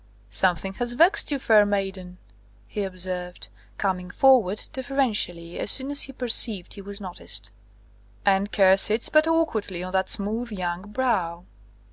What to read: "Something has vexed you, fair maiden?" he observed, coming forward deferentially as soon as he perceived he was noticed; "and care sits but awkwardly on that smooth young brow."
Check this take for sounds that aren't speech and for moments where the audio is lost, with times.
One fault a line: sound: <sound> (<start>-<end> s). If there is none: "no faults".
no faults